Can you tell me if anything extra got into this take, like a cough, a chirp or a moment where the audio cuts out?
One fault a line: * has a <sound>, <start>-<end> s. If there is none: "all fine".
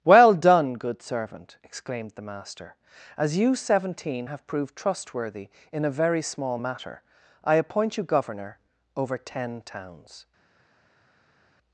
all fine